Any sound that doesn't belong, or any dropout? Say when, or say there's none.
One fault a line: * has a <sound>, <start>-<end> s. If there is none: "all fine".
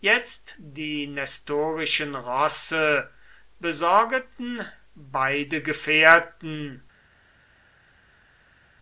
all fine